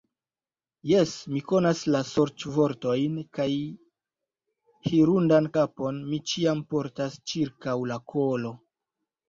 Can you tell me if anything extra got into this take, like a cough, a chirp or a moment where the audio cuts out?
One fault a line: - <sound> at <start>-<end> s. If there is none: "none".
none